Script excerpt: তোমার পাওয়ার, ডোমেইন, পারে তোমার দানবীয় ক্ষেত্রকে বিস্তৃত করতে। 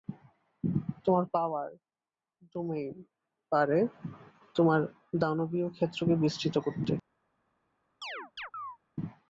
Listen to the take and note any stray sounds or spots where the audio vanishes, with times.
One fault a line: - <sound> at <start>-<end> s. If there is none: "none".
- chirp at 8.0-8.8 s